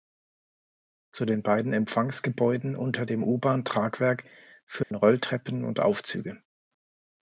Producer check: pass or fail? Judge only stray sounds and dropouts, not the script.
fail